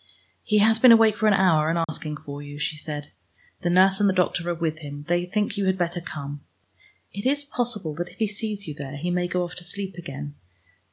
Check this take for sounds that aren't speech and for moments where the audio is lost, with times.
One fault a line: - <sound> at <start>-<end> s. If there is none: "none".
- dropout at 1.8-1.9 s